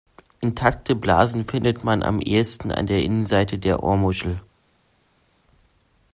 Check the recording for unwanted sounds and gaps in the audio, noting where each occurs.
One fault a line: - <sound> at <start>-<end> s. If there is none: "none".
none